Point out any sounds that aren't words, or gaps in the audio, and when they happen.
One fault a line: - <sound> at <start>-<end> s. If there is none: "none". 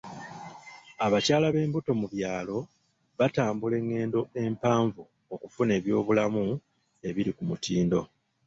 none